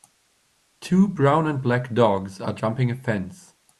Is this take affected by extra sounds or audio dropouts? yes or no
no